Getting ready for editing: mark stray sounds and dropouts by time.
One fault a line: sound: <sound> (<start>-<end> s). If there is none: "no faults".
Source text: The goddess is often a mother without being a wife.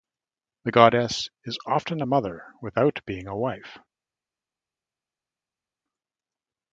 no faults